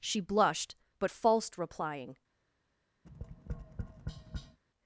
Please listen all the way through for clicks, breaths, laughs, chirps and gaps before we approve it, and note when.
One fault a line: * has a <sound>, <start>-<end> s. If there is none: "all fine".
* has a tap, 3.0-4.6 s